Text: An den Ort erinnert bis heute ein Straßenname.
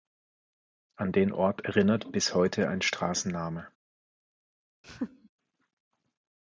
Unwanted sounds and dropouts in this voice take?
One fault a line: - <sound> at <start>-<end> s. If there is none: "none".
- laugh at 4.8-5.3 s